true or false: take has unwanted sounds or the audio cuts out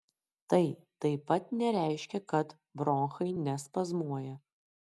false